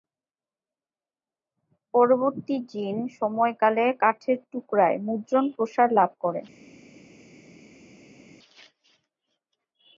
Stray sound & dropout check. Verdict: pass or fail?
pass